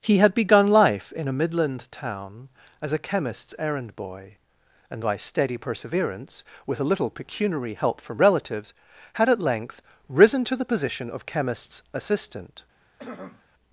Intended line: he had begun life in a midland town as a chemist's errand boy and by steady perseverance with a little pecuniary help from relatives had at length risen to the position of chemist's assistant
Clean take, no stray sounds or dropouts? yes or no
no